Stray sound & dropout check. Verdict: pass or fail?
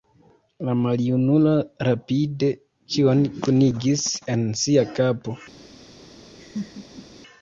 fail